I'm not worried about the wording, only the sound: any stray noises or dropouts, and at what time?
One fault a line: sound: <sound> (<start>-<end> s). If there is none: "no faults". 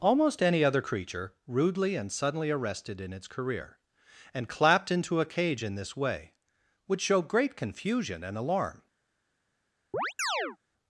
sound: chirp (9.9-10.6 s)